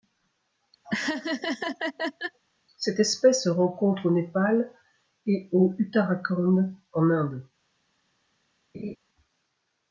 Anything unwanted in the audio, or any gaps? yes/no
yes